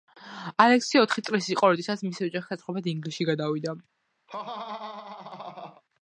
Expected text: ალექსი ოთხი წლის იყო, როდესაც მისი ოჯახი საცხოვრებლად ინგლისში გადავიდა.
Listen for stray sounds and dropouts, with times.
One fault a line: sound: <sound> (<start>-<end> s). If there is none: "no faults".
sound: laugh (4.3-5.8 s)